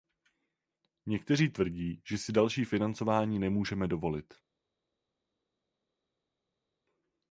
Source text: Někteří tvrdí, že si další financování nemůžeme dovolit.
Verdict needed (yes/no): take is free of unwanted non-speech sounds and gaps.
yes